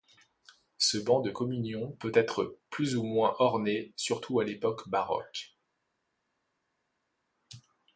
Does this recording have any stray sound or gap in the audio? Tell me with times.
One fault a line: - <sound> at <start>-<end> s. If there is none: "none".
none